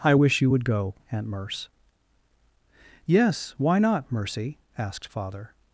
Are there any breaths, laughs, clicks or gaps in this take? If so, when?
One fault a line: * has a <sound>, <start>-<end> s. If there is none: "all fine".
all fine